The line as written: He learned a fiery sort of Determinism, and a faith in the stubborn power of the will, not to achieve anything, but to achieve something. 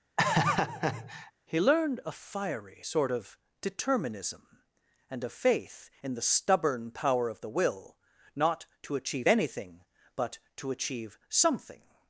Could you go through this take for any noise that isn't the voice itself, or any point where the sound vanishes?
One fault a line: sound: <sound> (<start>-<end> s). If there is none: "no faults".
sound: laugh (0.2-1.3 s)